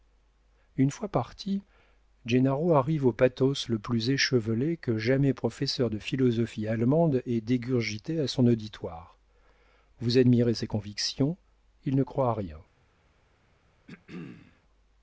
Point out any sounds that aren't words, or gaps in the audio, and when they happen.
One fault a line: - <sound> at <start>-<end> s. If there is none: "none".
- throat clearing at 13.9-14.6 s